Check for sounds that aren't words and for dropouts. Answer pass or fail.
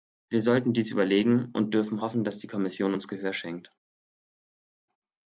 pass